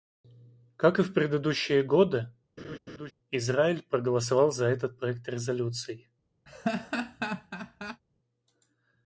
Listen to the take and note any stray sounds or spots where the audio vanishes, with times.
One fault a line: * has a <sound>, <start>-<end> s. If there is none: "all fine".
* has a laugh, 2.6-3.1 s
* has a laugh, 6.5-8.0 s